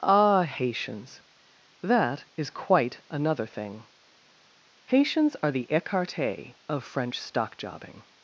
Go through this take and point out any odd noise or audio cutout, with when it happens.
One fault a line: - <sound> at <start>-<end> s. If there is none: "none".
none